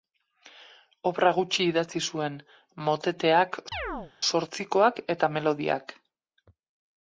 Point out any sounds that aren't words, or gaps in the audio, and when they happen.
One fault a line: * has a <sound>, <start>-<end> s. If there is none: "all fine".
* has a chirp, 3.7-4.1 s